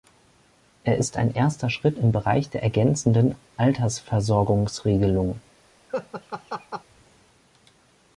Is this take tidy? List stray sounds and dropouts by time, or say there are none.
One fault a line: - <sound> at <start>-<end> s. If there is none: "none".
- laugh at 5.9-6.8 s